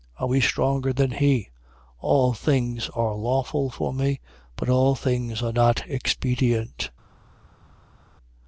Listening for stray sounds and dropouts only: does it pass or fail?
pass